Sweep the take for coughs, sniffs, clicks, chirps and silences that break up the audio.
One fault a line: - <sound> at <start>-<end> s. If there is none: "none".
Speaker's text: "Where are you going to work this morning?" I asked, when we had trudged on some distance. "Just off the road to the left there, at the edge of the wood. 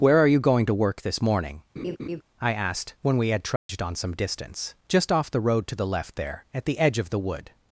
- laugh at 1.8-2.2 s
- dropout at 3.6-3.7 s